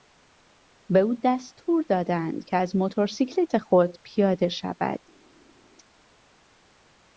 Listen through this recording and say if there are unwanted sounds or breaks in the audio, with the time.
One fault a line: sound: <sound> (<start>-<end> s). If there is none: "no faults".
no faults